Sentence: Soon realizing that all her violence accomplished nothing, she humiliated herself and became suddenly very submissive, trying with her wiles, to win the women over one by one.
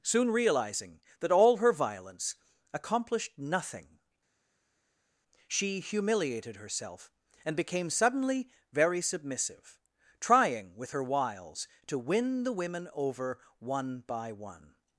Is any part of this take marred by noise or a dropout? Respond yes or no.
no